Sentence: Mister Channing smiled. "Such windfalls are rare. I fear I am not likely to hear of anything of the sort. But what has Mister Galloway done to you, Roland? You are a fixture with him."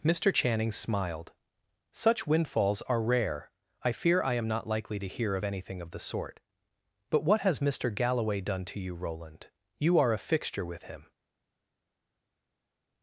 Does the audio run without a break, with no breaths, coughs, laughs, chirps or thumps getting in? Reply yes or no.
yes